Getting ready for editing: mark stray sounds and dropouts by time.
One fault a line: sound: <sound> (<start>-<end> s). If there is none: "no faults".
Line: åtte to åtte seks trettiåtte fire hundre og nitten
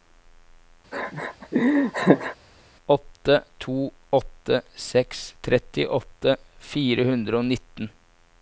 sound: laugh (0.9-2.4 s)